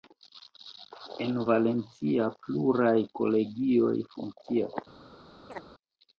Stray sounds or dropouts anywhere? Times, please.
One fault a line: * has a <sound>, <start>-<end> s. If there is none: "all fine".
* has a chirp, 5.5-5.6 s